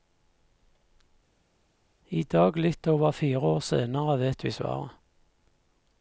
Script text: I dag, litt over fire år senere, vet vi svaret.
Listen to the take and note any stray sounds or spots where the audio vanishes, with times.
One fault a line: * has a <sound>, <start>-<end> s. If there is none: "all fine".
all fine